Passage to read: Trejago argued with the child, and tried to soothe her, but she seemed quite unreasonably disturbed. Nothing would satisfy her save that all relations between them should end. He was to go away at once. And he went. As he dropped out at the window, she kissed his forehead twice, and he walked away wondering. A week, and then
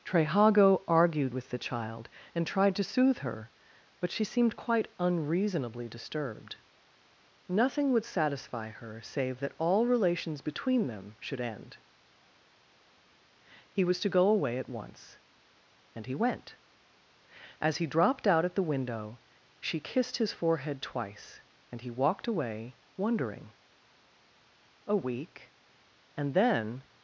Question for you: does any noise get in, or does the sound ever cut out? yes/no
no